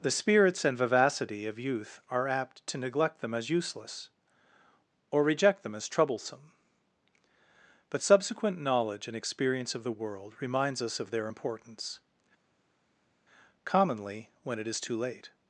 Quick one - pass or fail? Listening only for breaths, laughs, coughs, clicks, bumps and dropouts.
pass